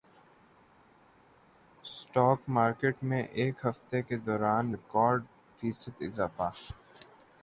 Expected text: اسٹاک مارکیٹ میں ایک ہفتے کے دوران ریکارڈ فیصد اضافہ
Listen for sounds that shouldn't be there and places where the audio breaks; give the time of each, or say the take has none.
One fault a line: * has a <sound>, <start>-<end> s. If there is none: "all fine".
all fine